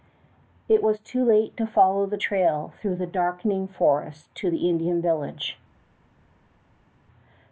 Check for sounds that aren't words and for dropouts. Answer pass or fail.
pass